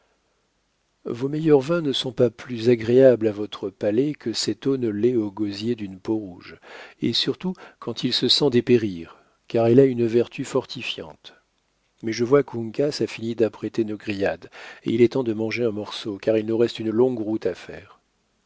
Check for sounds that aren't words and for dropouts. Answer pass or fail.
pass